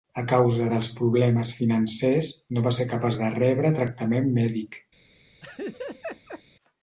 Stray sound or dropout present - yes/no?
yes